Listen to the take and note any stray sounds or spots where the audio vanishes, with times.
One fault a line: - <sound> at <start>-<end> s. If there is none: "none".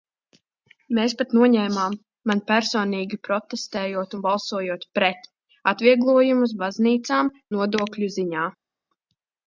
none